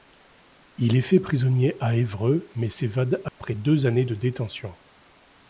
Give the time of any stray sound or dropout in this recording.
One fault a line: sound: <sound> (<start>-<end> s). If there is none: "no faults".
sound: dropout (3.3-3.4 s)